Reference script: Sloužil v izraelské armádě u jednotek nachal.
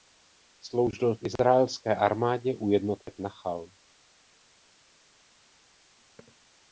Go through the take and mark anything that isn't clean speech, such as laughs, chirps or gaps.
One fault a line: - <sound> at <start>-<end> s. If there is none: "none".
none